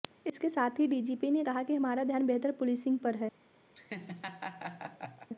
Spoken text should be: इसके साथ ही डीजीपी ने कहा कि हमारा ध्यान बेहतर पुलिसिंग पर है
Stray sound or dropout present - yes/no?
yes